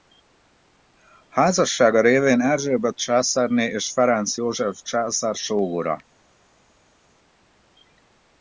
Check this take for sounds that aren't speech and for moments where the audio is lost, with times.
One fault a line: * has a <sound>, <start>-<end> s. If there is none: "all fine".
all fine